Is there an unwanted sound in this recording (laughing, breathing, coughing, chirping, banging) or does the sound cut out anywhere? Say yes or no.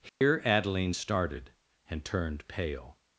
yes